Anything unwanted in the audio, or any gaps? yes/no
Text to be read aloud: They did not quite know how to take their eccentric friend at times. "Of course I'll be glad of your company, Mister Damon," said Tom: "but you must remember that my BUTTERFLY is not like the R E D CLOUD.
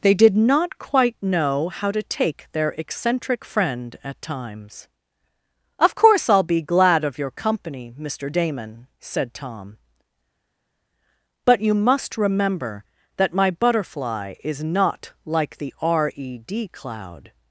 no